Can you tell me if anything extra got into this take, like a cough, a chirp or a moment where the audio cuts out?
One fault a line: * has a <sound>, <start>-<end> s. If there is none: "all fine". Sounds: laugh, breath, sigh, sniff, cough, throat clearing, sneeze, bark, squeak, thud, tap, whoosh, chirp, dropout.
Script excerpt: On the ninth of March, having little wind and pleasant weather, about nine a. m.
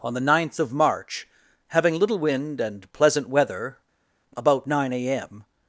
all fine